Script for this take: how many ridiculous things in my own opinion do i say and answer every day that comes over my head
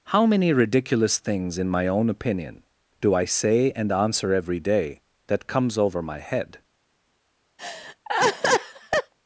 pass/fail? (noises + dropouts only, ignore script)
fail